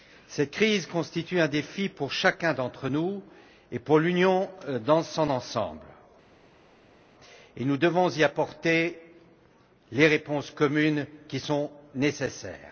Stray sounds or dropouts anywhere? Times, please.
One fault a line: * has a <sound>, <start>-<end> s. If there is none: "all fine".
all fine